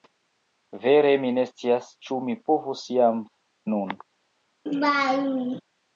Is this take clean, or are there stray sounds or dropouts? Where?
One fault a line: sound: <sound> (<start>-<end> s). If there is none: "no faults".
sound: laugh (4.7-5.6 s)